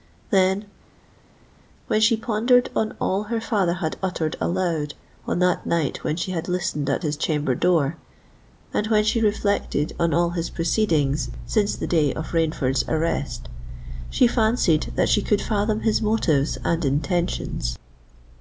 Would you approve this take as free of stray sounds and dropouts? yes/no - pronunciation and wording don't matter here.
yes